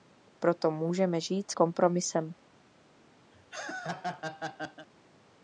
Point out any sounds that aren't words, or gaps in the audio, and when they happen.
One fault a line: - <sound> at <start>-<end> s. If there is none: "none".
- laugh at 3.3-4.9 s